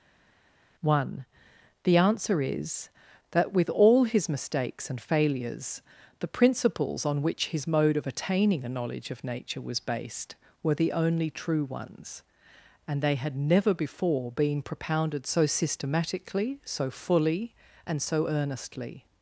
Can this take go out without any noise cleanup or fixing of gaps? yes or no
yes